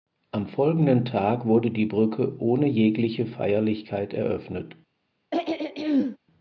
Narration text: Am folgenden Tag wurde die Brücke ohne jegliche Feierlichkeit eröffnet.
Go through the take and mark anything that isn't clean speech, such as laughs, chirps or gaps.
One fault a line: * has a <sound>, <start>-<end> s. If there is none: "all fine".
* has a throat clearing, 5.3-6.2 s